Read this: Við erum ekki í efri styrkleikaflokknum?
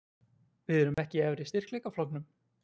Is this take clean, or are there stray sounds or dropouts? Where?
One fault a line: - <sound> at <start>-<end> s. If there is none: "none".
- dropout at 0.9-1.0 s